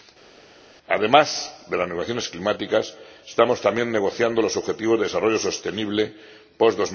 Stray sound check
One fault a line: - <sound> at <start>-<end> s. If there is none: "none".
none